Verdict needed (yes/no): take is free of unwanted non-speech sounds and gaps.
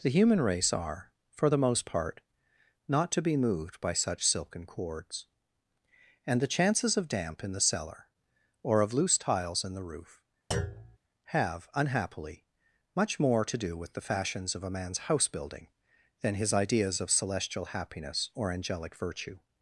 no